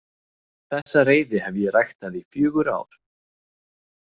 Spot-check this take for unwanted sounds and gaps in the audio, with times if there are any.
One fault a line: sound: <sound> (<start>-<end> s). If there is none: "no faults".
sound: dropout (0.8-0.9 s)